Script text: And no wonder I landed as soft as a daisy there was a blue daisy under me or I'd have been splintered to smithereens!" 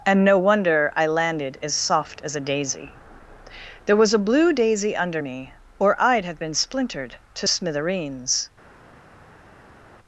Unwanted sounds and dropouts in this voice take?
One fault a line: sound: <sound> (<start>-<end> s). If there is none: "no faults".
no faults